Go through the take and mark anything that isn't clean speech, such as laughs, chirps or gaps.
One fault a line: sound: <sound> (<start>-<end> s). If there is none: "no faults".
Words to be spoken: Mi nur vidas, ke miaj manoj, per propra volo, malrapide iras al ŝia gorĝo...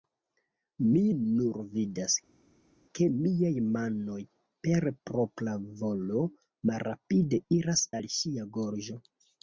no faults